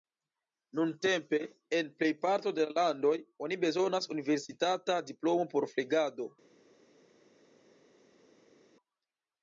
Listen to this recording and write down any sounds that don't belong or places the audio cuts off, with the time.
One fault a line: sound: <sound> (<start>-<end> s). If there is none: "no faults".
no faults